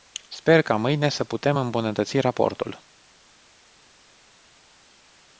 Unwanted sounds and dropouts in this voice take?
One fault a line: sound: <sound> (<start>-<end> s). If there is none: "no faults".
no faults